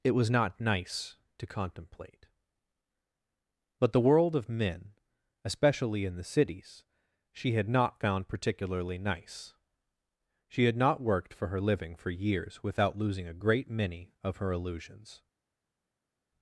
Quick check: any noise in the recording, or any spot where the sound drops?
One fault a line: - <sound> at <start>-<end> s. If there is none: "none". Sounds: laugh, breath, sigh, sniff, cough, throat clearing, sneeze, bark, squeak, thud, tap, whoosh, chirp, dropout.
none